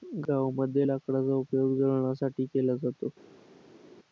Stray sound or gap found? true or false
false